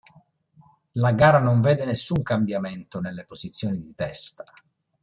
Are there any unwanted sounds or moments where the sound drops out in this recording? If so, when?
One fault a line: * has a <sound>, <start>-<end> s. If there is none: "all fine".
all fine